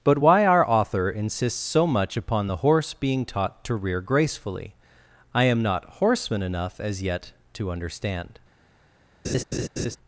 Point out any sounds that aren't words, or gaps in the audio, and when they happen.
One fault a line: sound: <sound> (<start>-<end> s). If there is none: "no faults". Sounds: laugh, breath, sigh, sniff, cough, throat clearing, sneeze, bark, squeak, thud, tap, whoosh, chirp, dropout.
sound: laugh (9.2-10.0 s)